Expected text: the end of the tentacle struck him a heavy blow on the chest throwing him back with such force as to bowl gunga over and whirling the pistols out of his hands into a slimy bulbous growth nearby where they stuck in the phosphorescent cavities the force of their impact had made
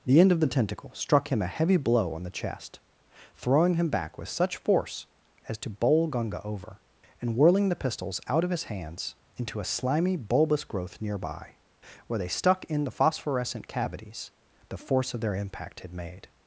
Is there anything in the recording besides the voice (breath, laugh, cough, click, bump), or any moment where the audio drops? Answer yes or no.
no